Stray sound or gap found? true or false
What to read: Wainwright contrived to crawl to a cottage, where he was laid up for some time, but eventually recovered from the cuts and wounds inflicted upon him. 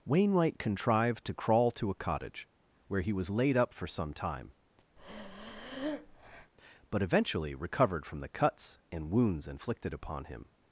true